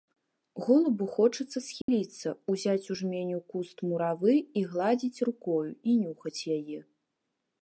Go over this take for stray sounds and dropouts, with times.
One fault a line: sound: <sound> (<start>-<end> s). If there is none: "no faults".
sound: dropout (1.8-1.9 s)